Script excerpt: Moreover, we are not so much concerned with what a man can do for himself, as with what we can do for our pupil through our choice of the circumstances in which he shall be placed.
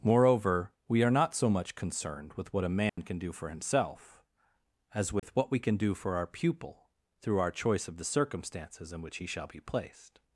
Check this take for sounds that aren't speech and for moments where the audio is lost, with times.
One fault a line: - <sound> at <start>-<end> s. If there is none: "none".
- dropout at 2.9-3.0 s
- dropout at 5.2-5.2 s